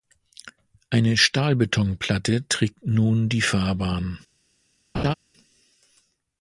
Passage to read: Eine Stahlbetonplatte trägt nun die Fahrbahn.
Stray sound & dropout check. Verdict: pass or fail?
fail